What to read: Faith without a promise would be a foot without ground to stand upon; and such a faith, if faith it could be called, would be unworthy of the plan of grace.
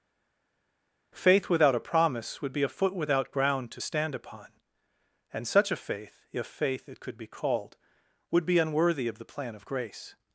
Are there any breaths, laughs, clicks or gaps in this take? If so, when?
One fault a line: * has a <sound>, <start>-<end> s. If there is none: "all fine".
all fine